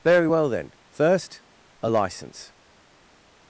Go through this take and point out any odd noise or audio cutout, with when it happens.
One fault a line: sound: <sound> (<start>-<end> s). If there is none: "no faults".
no faults